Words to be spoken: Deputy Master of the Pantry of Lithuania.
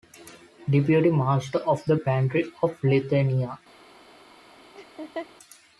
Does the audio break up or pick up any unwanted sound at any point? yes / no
yes